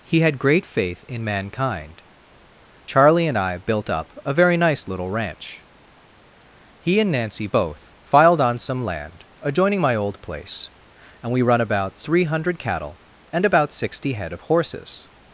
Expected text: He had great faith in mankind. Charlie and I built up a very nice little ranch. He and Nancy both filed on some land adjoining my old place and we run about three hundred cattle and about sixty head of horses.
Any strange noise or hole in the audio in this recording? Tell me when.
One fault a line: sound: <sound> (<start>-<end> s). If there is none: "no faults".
no faults